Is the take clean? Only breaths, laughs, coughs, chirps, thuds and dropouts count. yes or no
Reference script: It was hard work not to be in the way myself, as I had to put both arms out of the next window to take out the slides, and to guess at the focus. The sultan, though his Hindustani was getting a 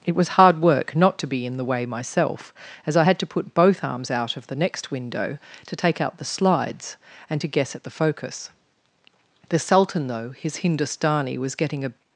yes